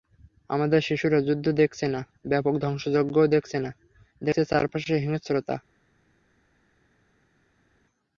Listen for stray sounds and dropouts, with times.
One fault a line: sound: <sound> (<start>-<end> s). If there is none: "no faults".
no faults